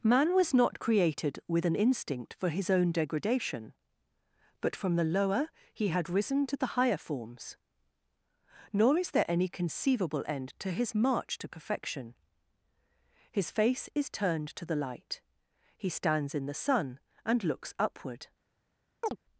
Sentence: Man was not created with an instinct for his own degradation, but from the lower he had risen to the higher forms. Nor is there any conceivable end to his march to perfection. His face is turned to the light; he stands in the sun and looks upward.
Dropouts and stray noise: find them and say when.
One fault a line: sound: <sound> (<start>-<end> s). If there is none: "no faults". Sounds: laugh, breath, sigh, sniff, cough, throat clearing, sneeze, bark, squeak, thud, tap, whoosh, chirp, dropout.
sound: chirp (19.0-19.2 s)